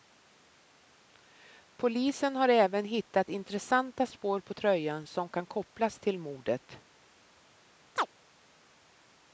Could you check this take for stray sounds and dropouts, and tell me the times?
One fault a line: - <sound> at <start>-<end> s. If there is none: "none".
- chirp at 8.0-8.1 s